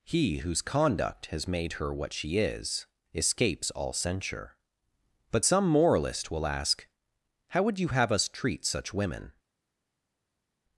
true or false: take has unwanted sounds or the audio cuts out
false